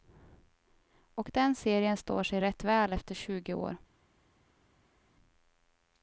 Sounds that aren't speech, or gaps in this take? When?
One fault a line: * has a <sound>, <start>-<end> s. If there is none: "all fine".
all fine